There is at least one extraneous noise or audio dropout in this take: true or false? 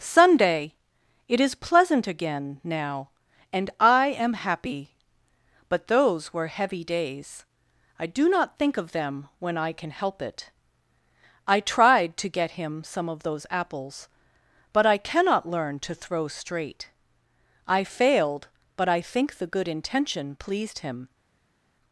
false